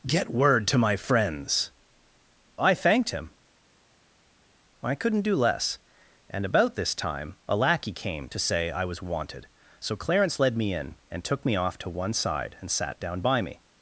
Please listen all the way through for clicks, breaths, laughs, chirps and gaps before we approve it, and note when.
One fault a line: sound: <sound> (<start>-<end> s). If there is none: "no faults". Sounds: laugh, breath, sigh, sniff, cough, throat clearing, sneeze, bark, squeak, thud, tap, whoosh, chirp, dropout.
no faults